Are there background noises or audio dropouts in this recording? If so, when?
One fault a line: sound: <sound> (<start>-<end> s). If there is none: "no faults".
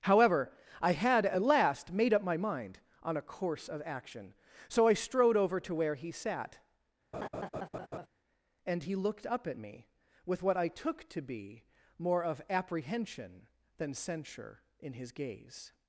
sound: laugh (7.1-8.1 s)